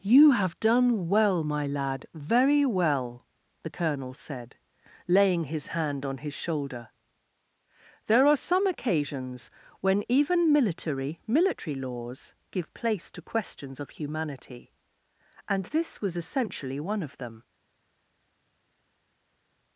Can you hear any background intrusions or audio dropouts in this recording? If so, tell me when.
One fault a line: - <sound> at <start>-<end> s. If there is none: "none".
none